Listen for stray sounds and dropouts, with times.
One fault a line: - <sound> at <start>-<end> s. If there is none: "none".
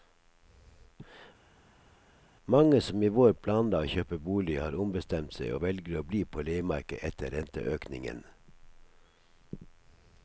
none